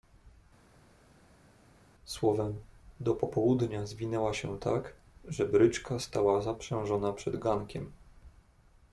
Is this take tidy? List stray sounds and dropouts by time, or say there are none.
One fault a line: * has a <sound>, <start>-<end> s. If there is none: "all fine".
all fine